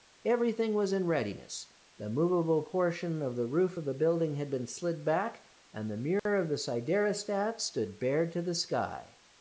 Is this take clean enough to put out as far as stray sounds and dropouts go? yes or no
no